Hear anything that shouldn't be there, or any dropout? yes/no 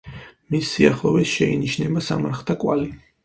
no